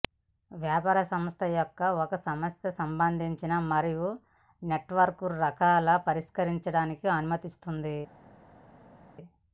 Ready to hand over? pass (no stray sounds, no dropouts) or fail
pass